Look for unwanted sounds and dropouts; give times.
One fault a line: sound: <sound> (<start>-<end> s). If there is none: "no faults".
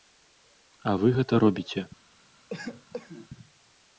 sound: cough (2.5-3.3 s)